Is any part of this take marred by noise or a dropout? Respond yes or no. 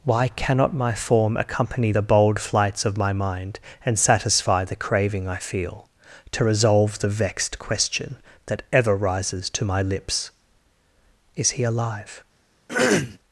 yes